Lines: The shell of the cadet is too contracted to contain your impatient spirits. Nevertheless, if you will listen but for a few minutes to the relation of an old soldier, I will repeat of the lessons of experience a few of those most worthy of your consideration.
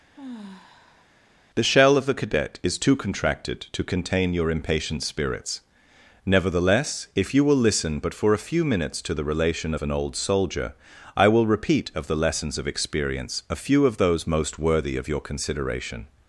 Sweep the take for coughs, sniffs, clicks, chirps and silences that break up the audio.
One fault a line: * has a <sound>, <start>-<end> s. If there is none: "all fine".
* has a sigh, 0.1-1.1 s